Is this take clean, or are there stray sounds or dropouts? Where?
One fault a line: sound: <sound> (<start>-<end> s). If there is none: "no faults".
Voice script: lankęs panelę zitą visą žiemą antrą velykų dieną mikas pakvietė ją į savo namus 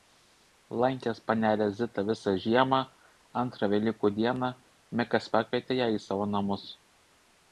no faults